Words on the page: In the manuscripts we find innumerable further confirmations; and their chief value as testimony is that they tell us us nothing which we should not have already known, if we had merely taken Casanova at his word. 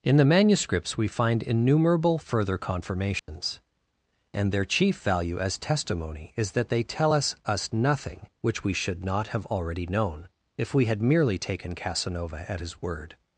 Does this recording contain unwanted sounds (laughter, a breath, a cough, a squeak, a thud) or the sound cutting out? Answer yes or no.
yes